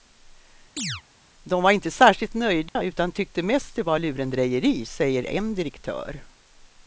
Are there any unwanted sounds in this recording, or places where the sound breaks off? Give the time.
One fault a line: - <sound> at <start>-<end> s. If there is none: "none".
- chirp at 0.8-1.0 s
- dropout at 2.7-2.8 s